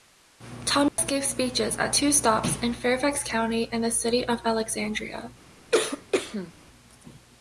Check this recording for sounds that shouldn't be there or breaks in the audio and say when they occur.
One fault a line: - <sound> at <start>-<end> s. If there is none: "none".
- dropout at 0.9-1.0 s
- cough at 5.7-6.5 s